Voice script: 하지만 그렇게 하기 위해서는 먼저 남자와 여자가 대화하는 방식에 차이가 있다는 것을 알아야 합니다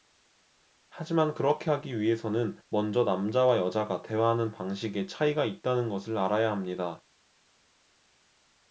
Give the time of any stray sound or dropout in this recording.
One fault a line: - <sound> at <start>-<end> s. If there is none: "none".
none